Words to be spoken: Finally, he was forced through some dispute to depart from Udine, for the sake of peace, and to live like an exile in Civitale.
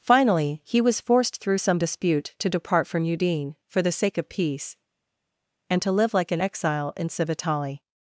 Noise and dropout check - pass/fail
pass